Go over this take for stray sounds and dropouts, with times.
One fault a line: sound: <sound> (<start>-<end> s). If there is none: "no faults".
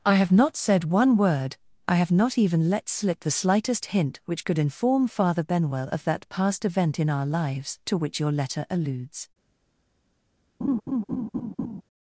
sound: laugh (10.6-11.8 s)